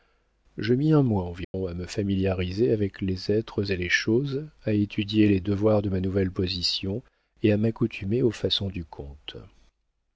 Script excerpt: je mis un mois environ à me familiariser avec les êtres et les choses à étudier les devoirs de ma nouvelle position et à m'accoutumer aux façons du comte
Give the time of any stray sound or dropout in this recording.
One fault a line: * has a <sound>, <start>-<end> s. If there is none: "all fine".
* has a dropout, 1.4-1.5 s